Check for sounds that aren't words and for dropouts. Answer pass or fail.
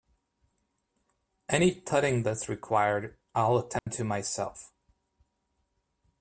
fail